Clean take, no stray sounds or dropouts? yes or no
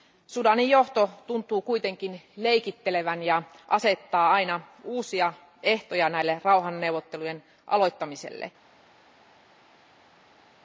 yes